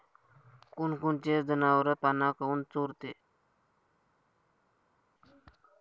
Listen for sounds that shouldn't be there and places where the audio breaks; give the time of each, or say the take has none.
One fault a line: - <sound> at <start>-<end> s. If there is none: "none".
none